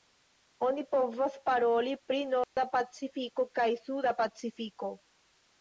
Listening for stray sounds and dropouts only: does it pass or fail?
fail